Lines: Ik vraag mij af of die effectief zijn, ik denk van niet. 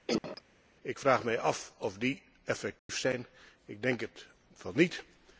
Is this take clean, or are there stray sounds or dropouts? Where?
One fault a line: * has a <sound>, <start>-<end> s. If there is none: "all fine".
* has a cough, 0.1-0.4 s
* has a dropout, 2.8-2.9 s